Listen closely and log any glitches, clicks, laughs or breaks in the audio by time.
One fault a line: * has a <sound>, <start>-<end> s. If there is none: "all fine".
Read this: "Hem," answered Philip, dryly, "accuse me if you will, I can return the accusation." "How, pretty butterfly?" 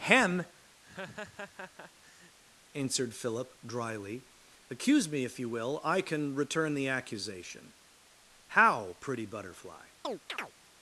* has a laugh, 0.8-2.4 s
* has a chirp, 10.0-10.5 s